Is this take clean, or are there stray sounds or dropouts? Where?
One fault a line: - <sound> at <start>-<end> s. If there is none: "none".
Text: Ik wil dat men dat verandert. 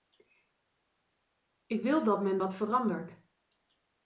none